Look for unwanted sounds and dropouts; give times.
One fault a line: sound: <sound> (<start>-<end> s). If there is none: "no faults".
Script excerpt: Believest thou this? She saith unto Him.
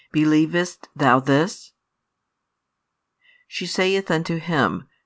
no faults